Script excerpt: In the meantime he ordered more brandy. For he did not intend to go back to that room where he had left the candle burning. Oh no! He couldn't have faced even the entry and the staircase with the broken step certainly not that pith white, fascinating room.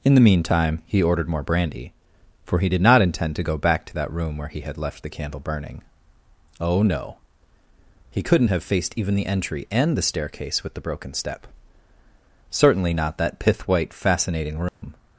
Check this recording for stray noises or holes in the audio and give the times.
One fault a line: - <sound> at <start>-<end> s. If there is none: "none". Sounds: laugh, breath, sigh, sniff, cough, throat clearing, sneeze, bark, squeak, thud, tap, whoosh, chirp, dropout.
- dropout at 14.7-14.8 s